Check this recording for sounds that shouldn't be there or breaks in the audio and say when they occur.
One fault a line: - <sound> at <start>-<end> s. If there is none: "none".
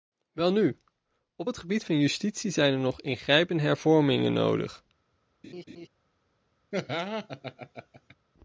- laugh at 5.4-5.9 s
- laugh at 6.7-8.1 s